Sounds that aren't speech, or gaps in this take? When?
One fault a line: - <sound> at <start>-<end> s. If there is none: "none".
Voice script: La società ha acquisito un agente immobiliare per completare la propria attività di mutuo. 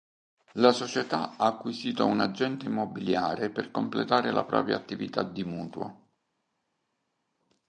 none